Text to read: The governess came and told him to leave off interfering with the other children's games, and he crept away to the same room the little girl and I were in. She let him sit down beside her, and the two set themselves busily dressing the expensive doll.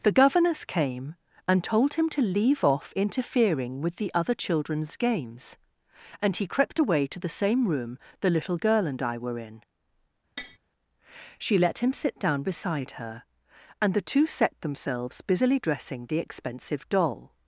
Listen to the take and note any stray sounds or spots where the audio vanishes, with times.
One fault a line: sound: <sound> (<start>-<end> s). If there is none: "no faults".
sound: tap (10.4-10.6 s)